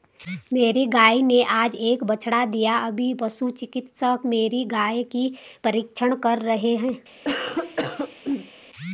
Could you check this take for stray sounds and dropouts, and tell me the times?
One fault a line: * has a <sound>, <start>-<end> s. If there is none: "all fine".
* has a cough, 7.2-8.5 s